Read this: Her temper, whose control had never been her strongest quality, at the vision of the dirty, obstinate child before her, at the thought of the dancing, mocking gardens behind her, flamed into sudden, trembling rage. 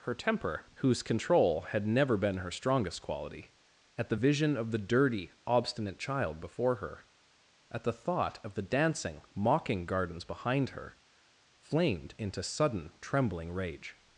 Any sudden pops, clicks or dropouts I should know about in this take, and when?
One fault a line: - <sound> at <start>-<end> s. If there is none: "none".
none